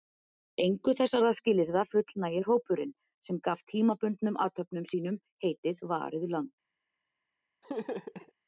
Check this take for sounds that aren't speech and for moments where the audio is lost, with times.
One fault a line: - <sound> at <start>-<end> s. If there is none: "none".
- laugh at 7.6-8.3 s